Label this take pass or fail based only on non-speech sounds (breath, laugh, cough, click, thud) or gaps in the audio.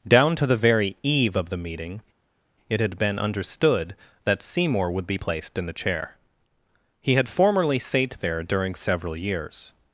pass